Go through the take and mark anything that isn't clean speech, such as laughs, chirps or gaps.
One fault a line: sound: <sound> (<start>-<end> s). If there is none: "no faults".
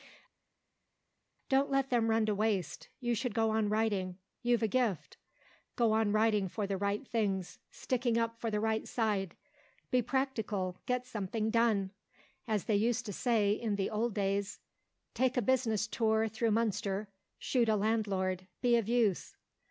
no faults